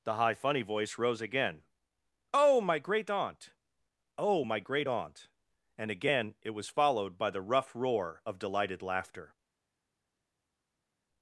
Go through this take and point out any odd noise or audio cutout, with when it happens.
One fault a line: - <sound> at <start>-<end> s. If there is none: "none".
none